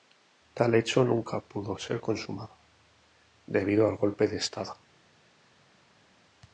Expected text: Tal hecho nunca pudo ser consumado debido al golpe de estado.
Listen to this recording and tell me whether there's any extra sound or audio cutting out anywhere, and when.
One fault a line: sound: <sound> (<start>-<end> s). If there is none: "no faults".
no faults